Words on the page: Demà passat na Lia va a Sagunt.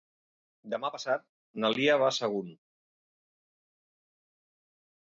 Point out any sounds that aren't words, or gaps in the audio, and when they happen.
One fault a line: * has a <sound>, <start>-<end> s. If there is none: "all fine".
all fine